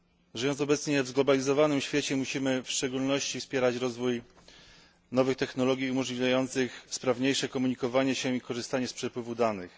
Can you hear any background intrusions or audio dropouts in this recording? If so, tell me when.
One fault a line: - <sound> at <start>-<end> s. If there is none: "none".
none